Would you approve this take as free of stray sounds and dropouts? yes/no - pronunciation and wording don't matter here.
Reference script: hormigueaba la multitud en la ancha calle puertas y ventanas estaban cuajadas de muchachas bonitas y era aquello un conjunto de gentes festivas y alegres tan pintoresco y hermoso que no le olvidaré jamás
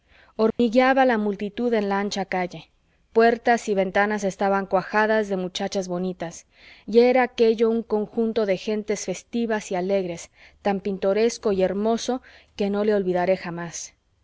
no